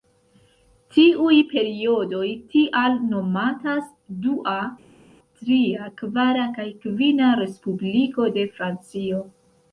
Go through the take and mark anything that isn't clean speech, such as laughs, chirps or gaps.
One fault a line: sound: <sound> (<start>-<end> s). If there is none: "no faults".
no faults